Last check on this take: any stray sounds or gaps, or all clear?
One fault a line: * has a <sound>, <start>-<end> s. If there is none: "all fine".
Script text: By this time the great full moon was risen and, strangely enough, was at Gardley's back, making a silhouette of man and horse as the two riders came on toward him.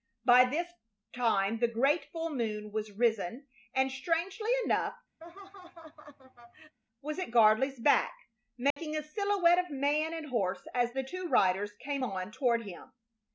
* has a laugh, 5.2-6.8 s
* has a dropout, 8.7-8.8 s